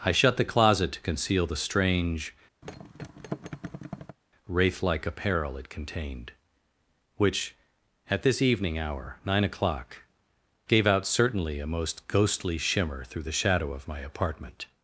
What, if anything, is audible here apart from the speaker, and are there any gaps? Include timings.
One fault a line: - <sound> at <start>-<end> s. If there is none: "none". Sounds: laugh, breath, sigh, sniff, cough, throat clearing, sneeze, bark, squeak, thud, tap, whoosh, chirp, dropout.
- thud at 2.6-4.2 s